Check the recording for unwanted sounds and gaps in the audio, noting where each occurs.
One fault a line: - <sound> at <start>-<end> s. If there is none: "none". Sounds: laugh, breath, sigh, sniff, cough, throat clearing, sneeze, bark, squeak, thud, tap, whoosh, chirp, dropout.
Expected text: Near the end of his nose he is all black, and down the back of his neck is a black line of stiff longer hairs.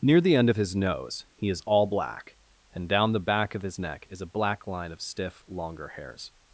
none